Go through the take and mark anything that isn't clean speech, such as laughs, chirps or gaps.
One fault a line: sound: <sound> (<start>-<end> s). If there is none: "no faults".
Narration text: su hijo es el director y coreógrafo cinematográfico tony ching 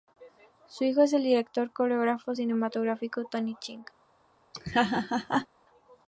sound: laugh (4.5-5.5 s)